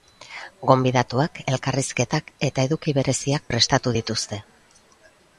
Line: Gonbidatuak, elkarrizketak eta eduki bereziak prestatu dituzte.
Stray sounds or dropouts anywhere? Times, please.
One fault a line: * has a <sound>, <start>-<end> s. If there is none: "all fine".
all fine